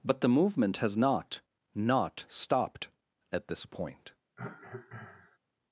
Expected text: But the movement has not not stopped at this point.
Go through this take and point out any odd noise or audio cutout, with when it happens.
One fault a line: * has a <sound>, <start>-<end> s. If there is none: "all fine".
* has a cough, 4.4-5.4 s